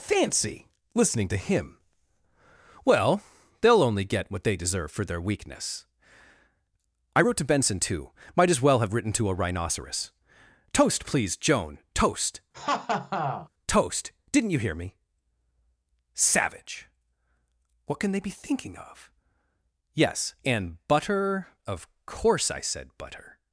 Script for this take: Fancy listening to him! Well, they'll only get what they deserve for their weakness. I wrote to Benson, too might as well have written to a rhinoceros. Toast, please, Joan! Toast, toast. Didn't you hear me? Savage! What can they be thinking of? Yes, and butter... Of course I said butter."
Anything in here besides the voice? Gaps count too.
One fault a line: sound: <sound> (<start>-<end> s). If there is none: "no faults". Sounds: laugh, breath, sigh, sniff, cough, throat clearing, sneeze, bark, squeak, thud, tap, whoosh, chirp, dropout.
sound: laugh (12.5-13.5 s)